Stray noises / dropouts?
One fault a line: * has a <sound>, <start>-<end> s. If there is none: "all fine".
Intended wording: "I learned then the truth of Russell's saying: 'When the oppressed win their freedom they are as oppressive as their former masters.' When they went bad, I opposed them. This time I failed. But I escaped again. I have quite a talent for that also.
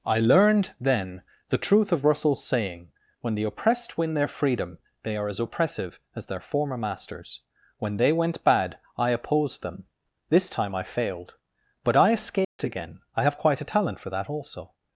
* has a dropout, 12.4-12.6 s